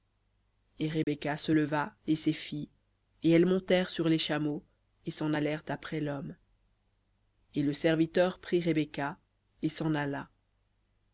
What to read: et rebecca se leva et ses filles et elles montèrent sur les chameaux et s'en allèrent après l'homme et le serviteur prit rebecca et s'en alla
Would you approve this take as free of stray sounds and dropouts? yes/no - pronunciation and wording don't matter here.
no